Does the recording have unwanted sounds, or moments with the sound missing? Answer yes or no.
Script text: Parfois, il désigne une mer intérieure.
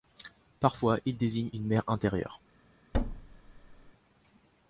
yes